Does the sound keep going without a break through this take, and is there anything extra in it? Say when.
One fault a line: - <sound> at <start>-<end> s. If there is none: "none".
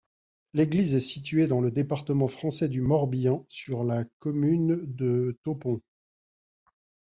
none